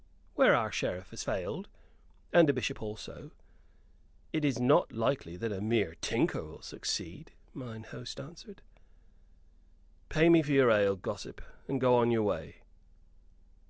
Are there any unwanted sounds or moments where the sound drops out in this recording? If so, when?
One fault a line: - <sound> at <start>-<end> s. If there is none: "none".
none